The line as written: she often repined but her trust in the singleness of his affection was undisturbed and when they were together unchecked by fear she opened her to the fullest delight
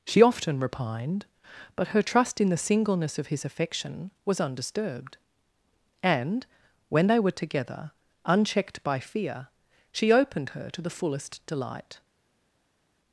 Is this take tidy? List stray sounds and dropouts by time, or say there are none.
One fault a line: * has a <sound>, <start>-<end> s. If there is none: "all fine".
all fine